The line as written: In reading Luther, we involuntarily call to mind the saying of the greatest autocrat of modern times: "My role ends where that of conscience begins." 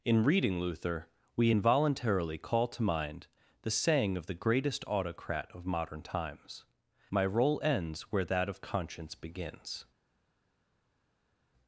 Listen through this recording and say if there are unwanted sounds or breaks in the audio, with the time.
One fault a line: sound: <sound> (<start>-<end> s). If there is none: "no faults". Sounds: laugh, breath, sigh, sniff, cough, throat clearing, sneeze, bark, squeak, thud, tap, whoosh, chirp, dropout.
no faults